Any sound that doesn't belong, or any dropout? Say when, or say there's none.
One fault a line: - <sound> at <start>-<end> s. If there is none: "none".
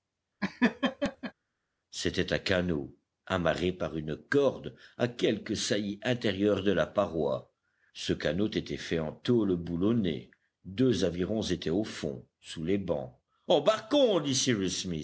- laugh at 0.4-1.3 s